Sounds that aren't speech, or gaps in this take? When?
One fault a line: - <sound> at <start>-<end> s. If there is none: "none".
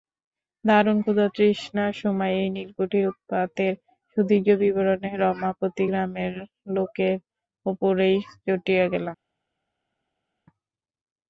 none